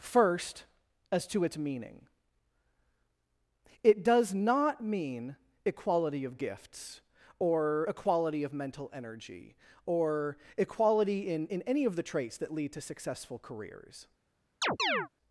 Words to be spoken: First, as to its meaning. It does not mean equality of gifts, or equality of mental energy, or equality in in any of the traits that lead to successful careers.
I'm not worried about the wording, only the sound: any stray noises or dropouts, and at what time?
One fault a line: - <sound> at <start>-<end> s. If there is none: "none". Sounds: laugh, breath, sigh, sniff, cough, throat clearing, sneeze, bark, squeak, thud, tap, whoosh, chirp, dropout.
- chirp at 14.6-15.1 s